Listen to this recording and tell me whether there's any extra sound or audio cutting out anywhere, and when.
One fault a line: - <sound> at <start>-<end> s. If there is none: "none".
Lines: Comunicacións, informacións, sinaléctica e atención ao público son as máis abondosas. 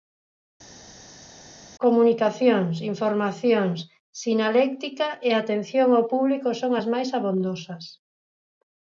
none